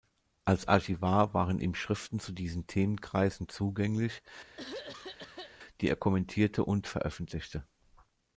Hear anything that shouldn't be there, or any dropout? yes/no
yes